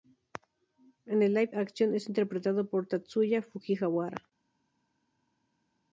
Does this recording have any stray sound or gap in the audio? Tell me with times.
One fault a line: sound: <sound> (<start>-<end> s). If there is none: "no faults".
no faults